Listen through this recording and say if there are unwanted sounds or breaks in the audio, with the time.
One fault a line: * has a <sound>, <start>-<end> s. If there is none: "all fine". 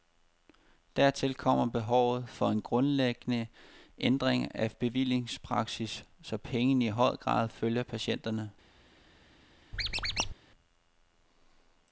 * has a squeak, 9.7-10.3 s